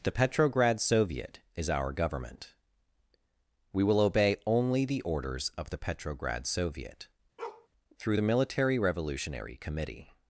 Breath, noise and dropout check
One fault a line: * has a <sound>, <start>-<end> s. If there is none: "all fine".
* has a bark, 7.4-7.7 s